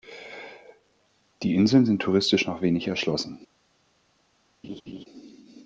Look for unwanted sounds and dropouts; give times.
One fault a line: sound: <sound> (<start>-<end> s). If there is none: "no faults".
sound: laugh (4.6-5.1 s)